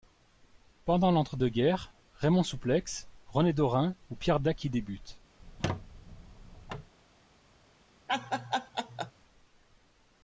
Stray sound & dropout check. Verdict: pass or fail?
fail